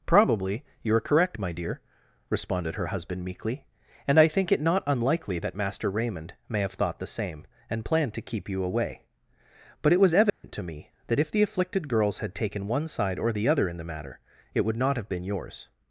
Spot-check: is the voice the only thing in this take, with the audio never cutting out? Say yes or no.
no